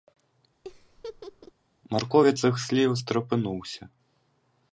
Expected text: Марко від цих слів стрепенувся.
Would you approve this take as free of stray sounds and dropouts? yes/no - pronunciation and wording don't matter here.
no